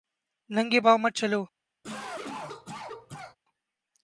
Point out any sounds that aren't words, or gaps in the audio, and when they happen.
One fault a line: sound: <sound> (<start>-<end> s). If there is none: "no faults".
sound: cough (1.8-3.4 s)